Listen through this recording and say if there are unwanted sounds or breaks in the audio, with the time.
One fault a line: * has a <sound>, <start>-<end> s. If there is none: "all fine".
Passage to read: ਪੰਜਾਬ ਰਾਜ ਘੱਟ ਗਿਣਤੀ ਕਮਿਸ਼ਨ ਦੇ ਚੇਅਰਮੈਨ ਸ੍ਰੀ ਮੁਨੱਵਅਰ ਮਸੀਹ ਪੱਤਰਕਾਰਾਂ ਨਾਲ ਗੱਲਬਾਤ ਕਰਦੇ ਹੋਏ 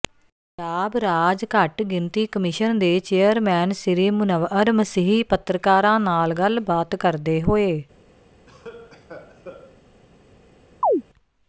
* has a cough, 8.5-9.8 s
* has a chirp, 10.8-11.0 s